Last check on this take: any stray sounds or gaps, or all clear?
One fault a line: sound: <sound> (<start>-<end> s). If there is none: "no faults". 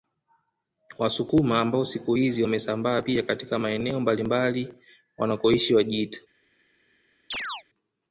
sound: chirp (7.3-7.6 s)